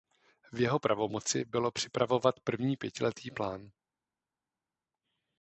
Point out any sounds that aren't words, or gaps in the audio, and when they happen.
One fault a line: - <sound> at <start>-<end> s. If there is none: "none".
none